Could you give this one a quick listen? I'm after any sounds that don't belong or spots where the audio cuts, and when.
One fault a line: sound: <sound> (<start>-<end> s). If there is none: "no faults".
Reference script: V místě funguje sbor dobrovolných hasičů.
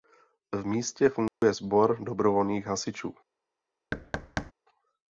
sound: dropout (1.3-1.4 s)
sound: thud (3.9-4.5 s)